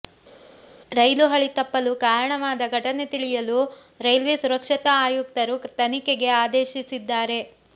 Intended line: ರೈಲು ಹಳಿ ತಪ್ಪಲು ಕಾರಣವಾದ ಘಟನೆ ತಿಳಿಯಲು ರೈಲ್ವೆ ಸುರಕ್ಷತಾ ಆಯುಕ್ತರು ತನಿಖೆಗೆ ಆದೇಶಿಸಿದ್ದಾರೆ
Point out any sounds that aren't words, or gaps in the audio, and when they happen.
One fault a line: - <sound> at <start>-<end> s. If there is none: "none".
none